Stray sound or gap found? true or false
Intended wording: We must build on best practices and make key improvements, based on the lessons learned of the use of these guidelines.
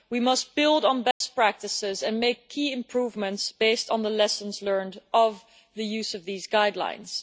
true